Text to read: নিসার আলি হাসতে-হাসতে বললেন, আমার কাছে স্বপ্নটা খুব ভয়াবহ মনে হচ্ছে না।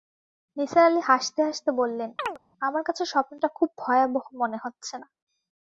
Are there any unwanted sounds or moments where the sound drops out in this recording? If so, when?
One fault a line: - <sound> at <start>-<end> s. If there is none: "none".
- chirp at 2.2-2.4 s